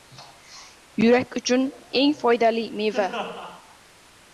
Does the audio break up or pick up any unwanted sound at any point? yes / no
no